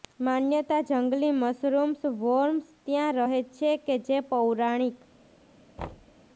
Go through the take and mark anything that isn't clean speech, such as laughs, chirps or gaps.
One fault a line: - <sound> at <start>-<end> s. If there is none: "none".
- thud at 5.8-6.2 s